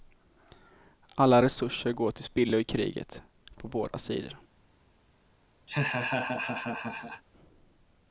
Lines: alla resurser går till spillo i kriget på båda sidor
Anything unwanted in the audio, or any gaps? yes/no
yes